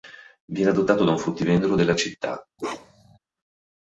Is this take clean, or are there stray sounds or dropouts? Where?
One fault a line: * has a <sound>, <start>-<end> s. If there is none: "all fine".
* has a bark, 2.6-3.2 s